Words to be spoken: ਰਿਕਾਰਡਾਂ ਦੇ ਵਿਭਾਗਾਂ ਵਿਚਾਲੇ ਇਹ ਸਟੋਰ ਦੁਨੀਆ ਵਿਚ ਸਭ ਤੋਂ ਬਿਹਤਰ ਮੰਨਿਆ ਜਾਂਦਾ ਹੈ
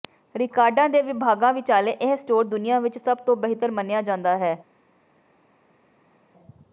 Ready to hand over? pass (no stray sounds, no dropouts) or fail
pass